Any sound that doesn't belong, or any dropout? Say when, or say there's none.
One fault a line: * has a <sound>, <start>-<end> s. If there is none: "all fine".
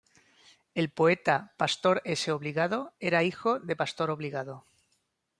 all fine